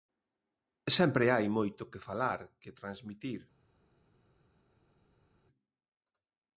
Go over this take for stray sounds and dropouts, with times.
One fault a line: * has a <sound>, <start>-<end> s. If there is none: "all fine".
all fine